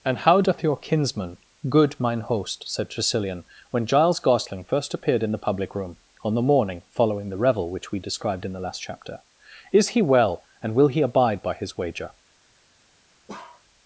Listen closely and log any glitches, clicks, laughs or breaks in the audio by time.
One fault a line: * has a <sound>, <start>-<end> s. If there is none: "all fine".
* has a bark, 13.3-13.6 s